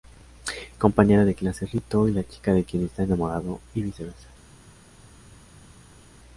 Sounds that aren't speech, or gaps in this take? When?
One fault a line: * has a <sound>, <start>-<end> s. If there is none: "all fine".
all fine